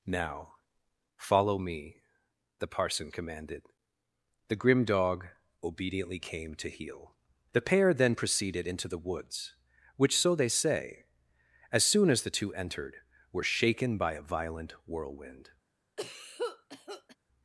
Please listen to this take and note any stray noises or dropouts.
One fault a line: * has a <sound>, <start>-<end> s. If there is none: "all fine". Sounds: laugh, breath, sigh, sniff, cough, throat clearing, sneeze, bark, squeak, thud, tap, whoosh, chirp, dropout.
* has a cough, 16.0-17.2 s